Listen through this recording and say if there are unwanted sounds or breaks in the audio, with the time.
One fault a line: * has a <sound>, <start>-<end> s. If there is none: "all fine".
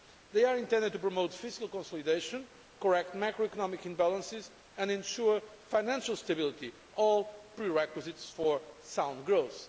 all fine